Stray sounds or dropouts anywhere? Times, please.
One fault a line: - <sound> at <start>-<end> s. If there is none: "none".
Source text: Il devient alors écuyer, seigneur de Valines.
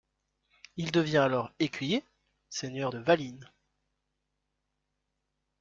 none